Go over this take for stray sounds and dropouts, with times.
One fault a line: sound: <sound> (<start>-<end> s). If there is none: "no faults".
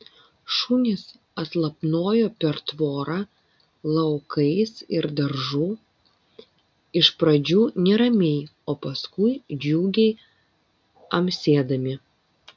no faults